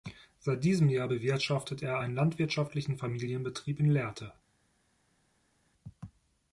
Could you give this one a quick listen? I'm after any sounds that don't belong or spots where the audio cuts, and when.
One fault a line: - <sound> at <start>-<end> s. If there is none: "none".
none